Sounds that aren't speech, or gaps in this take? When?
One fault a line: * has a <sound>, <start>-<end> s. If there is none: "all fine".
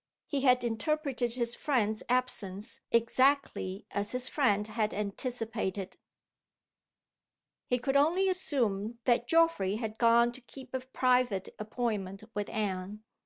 all fine